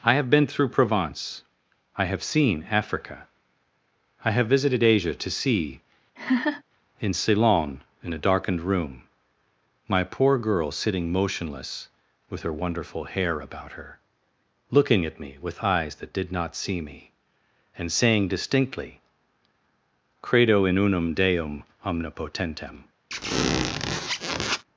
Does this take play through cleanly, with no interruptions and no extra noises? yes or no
no